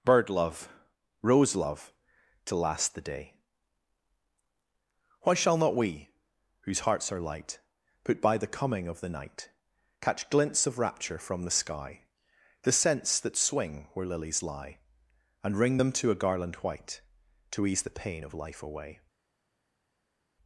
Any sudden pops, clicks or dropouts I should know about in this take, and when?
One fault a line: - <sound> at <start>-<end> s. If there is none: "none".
none